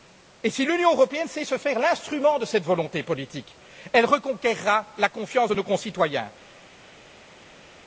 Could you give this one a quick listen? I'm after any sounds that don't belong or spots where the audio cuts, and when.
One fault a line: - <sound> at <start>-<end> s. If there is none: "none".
none